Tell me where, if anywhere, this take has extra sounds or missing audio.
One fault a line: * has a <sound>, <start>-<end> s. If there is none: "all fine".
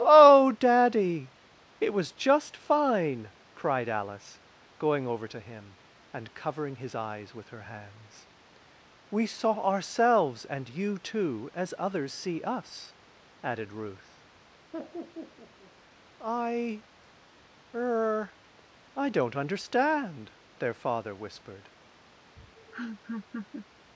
* has a laugh, 14.7-15.7 s
* has a laugh, 22.4-23.7 s